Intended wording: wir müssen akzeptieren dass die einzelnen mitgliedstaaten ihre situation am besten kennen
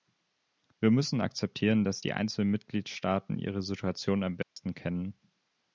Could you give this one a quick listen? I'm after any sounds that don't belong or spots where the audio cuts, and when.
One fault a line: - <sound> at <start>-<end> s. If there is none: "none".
- dropout at 4.4-4.6 s